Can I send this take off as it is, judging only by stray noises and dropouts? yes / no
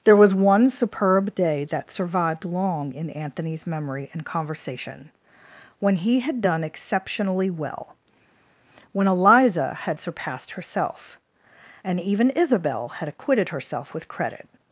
yes